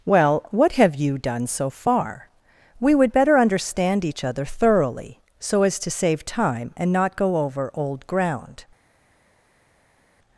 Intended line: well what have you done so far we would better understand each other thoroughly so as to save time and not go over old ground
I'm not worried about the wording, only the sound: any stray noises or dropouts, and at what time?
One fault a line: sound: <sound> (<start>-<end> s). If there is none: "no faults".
no faults